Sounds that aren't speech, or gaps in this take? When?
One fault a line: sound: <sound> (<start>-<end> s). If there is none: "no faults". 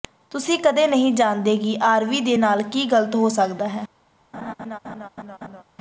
sound: laugh (4.3-5.6 s)